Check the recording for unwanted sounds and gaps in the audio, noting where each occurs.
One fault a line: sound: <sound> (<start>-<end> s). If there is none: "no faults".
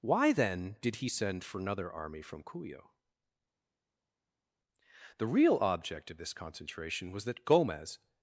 no faults